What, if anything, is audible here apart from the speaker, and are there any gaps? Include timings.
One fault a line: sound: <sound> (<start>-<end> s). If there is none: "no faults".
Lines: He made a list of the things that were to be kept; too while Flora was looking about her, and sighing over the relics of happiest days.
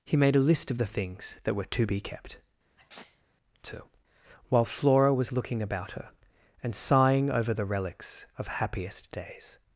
sound: sneeze (2.8-3.2 s)